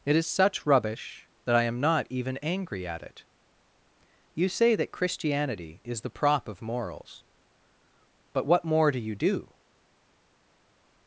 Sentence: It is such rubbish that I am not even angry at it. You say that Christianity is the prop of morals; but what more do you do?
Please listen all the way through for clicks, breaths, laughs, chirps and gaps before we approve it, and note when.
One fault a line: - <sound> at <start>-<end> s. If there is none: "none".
none